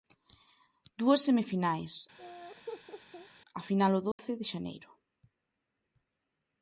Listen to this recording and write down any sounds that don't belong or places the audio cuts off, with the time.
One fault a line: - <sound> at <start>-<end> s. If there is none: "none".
- laugh at 2.2-3.3 s
- dropout at 4.1-4.2 s